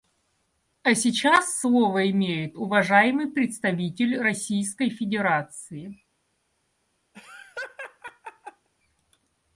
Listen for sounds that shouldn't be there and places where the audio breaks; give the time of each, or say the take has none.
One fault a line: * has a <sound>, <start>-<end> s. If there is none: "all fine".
* has a laugh, 7.1-8.7 s